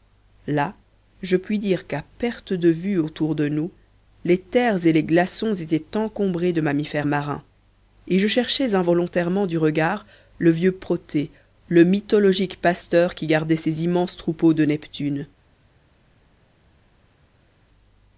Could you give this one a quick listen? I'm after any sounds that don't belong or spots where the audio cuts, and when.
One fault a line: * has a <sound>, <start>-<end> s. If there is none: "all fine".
all fine